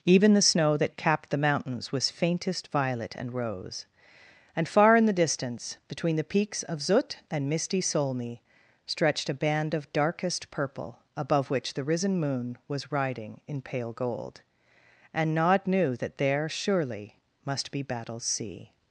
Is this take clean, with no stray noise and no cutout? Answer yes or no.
yes